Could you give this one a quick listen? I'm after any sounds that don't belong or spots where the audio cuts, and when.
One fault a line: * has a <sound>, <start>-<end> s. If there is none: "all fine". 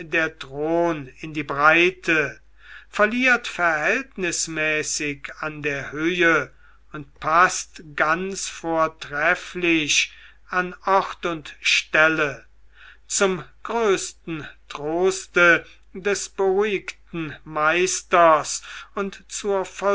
all fine